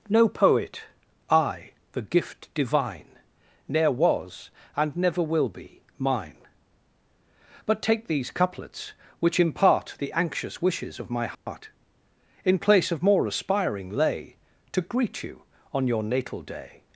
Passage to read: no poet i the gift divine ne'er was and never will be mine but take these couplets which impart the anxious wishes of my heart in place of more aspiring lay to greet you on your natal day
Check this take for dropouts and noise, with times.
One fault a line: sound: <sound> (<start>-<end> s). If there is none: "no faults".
sound: dropout (11.3-11.5 s)